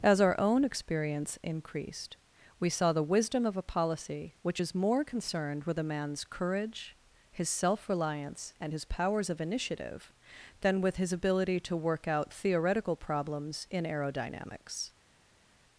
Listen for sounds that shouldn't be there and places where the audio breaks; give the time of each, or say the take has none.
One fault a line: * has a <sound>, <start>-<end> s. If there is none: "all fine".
all fine